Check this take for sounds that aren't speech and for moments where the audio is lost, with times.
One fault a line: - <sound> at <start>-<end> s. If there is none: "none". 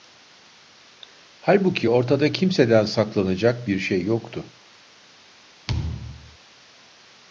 - thud at 5.7-6.4 s